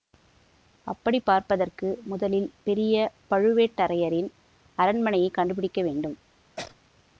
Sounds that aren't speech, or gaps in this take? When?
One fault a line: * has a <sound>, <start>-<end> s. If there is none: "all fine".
* has a sneeze, 6.6-6.8 s